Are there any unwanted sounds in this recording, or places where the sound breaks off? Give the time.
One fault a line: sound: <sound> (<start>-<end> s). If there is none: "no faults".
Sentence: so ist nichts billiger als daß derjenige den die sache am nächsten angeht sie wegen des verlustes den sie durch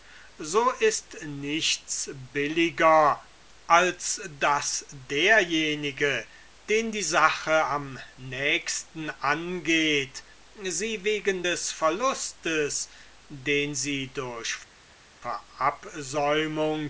no faults